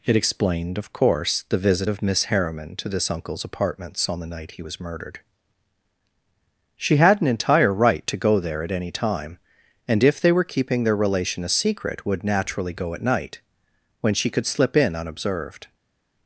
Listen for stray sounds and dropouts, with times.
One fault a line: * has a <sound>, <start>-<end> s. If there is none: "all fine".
all fine